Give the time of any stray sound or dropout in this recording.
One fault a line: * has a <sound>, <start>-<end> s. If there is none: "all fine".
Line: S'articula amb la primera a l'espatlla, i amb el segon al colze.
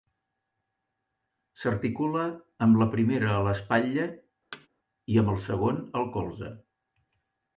* has a thud, 4.5-4.7 s